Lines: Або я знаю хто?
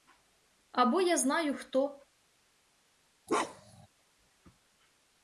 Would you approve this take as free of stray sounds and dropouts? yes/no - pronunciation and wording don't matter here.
no